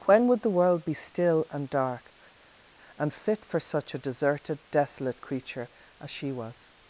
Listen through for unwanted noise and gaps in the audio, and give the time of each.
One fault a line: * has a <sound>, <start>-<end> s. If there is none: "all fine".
all fine